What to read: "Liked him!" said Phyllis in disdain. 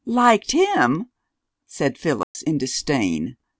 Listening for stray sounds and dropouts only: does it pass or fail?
fail